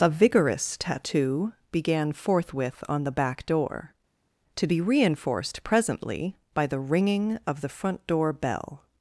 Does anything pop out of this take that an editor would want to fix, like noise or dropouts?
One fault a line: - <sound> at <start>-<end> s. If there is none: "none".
none